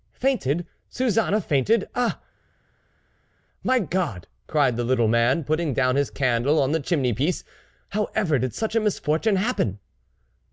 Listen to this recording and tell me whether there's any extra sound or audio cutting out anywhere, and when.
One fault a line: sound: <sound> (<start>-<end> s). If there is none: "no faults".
no faults